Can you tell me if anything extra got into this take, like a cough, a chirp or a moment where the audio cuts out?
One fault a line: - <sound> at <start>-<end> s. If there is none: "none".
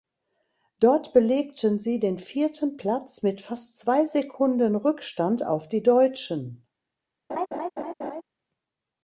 - laugh at 7.3-8.2 s